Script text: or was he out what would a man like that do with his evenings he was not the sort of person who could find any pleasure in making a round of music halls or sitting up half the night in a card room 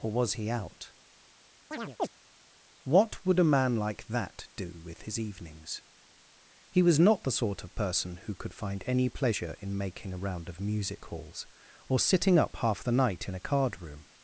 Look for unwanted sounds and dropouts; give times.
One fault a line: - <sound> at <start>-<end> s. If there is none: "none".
- chirp at 1.7-2.1 s